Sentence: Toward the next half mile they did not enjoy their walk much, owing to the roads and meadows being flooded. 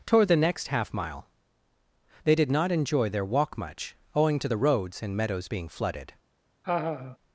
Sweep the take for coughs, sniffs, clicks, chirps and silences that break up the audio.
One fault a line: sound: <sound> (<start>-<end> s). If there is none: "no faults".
sound: laugh (6.6-7.2 s)